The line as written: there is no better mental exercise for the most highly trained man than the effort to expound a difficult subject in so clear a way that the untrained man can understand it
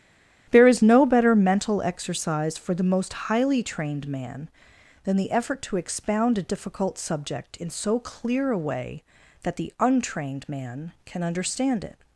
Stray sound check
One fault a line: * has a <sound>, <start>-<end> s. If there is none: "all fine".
all fine